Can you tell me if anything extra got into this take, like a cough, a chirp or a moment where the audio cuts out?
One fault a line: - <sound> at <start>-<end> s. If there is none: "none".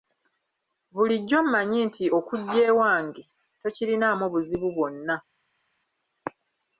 none